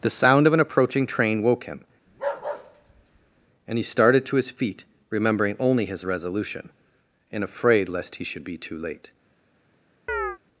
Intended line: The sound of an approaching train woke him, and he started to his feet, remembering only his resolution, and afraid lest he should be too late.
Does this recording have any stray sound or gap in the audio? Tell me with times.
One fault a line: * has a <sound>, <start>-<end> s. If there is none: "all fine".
* has a bark, 2.1-3.5 s
* has a chirp, 10.1-10.4 s